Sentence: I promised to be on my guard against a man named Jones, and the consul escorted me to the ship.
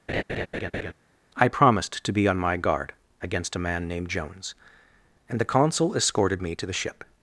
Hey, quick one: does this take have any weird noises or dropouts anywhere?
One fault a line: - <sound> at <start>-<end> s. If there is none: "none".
- laugh at 0.1-0.9 s